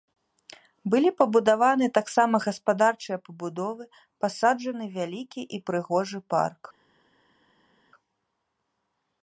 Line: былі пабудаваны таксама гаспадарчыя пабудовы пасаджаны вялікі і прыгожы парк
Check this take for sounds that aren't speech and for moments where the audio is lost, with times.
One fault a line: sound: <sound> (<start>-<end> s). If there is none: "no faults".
no faults